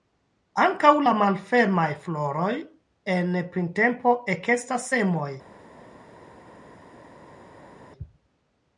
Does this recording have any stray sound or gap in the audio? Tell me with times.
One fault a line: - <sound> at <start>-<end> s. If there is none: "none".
none